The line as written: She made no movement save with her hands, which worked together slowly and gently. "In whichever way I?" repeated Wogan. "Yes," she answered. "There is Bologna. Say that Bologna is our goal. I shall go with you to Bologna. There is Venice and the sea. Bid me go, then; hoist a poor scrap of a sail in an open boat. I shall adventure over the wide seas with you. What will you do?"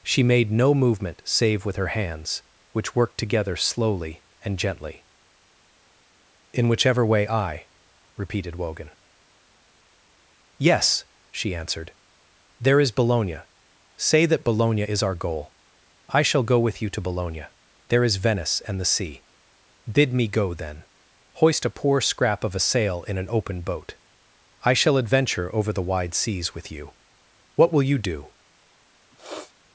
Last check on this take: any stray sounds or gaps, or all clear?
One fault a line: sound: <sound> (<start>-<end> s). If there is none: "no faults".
sound: sniff (29.1-29.5 s)